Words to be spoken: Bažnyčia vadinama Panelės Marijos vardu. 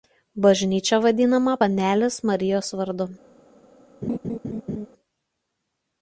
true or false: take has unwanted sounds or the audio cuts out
true